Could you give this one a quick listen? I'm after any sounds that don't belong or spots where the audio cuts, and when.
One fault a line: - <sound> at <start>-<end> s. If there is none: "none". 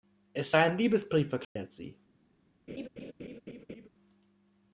- dropout at 1.4-1.6 s
- laugh at 2.7-3.9 s